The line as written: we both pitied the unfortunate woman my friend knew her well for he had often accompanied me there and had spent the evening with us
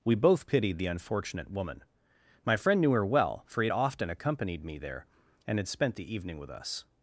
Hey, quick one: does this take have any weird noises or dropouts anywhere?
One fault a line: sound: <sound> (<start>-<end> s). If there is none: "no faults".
no faults